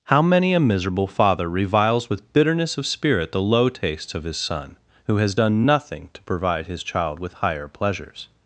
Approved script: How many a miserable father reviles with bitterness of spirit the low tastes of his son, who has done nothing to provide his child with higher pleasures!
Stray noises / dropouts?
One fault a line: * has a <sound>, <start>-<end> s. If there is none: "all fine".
all fine